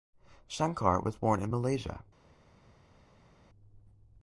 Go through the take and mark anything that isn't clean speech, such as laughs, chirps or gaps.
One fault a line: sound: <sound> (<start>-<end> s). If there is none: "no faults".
no faults